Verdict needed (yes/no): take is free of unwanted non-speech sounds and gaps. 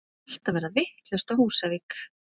yes